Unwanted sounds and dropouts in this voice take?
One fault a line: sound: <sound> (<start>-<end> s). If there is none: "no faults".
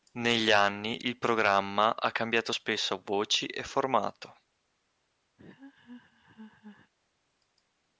sound: laugh (5.4-6.9 s)